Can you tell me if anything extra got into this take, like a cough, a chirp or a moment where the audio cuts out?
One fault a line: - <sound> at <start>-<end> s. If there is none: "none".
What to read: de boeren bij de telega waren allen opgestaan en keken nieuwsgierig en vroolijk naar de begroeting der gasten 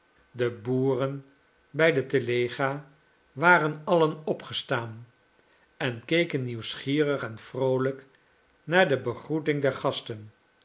none